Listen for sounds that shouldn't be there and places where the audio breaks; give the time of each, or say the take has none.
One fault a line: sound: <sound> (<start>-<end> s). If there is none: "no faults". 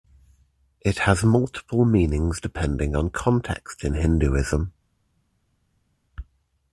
no faults